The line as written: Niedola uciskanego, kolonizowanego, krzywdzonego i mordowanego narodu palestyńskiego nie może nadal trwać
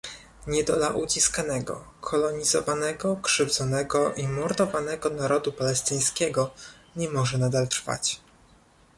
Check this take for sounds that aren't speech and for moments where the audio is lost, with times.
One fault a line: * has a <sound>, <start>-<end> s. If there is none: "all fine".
all fine